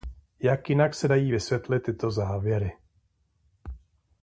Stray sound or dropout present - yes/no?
no